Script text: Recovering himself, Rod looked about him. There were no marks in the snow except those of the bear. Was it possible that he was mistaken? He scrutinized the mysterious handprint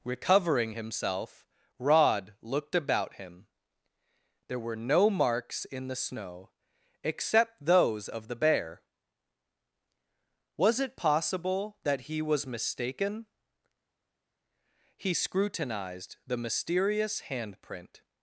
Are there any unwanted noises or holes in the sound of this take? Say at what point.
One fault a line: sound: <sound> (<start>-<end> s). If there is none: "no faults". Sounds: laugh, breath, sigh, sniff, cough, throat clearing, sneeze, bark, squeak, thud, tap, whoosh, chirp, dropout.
no faults